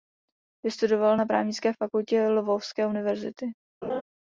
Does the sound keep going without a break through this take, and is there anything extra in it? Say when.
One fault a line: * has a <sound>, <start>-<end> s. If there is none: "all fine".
* has a laugh, 3.8-4.0 s